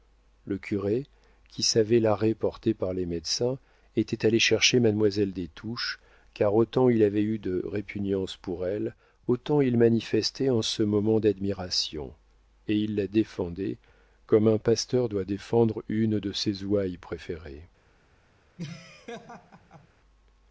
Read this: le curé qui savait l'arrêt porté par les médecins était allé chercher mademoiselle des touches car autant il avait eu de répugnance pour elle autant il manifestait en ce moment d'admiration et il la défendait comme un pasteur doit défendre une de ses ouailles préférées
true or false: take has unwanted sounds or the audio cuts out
true